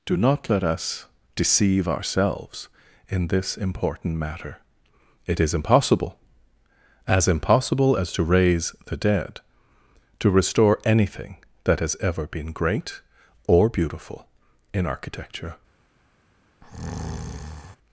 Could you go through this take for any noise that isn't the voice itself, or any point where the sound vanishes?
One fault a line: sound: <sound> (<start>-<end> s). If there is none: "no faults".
sound: breath (16.6-17.8 s)